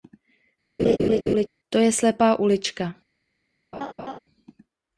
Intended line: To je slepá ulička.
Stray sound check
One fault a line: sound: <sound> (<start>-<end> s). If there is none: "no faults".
sound: laugh (0.8-1.5 s)
sound: laugh (3.7-4.2 s)